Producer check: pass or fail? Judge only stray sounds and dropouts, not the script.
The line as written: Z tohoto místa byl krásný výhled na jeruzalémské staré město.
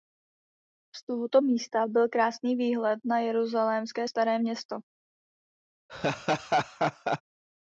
fail